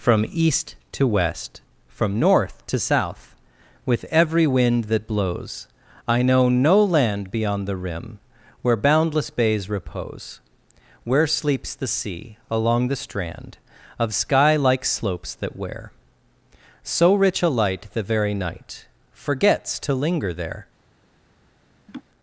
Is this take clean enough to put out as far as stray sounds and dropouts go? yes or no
no